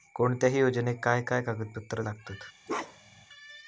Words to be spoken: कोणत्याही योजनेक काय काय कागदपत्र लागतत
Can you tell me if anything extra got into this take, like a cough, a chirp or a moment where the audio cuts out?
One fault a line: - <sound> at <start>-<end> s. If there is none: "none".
- bark at 2.7-3.3 s